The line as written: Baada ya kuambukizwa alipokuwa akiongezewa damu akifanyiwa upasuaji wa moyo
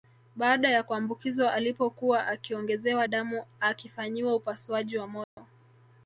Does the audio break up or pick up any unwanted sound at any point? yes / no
yes